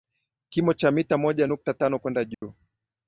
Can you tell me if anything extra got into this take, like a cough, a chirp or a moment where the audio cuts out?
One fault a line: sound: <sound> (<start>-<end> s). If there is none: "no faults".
sound: dropout (2.3-2.4 s)